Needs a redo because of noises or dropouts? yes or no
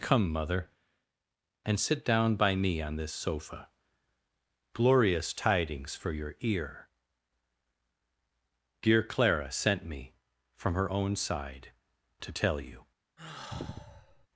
yes